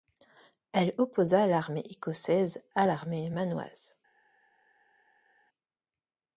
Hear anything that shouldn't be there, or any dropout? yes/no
no